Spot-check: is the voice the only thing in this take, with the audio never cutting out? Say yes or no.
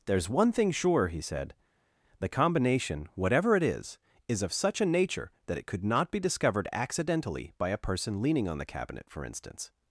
yes